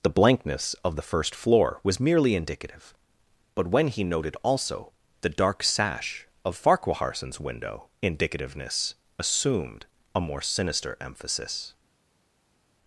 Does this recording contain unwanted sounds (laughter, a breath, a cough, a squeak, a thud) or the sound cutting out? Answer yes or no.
no